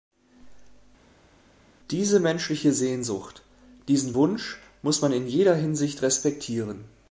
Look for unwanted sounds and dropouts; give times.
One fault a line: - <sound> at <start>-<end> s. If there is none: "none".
none